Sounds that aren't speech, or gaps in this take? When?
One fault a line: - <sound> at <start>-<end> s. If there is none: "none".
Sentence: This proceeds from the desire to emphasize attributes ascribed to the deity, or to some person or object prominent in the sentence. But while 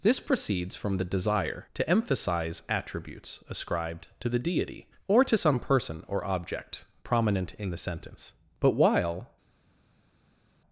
none